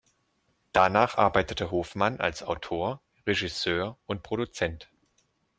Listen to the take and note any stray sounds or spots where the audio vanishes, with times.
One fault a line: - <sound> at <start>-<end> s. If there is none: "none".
none